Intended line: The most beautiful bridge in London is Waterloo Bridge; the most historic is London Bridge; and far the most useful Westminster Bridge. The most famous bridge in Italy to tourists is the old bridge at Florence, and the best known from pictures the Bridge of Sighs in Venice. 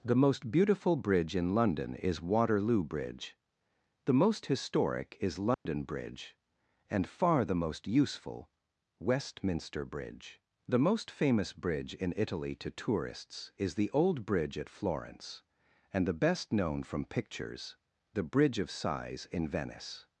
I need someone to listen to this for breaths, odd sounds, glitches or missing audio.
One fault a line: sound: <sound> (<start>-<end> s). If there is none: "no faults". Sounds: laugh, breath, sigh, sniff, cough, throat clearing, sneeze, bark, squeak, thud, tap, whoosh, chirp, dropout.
sound: dropout (5.5-5.7 s)